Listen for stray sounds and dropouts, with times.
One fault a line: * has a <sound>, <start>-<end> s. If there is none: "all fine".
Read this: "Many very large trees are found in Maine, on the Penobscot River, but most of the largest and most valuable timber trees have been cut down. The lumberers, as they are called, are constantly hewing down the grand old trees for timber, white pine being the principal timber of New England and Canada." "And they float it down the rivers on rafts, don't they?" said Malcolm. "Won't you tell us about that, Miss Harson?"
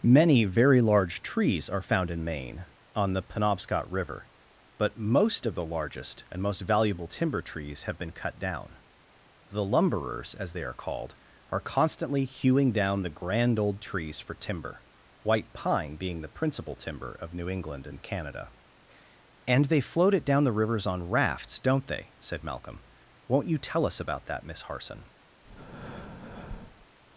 * has a breath, 25.4-26.9 s